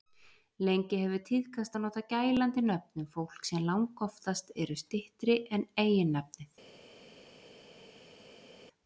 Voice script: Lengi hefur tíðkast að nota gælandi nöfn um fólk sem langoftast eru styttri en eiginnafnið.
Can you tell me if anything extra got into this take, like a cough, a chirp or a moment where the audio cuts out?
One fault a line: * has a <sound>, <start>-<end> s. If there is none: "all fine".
all fine